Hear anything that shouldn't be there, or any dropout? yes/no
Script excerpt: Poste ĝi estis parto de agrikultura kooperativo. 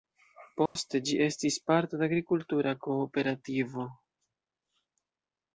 yes